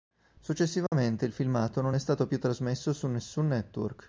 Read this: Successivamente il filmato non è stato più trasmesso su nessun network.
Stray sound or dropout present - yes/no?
yes